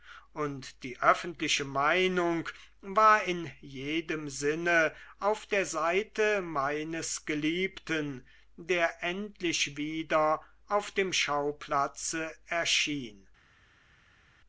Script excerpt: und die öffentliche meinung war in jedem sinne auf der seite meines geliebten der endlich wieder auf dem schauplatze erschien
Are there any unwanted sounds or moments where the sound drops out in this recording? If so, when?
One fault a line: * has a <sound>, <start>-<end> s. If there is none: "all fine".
all fine